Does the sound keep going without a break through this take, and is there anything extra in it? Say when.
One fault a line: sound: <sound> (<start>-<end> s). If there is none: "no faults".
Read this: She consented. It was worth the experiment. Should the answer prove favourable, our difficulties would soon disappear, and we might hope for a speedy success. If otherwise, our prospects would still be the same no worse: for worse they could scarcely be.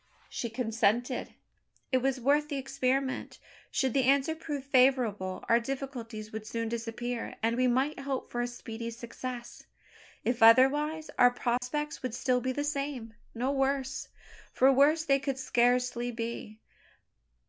sound: dropout (11.6-11.6 s)